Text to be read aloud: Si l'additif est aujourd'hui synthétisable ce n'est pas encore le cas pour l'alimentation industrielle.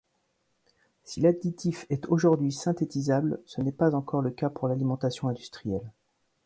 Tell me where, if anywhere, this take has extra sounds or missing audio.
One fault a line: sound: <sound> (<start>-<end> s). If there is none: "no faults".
no faults